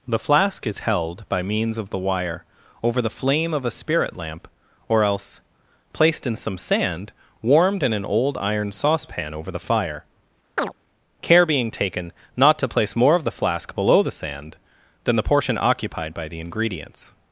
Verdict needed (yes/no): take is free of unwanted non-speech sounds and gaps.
no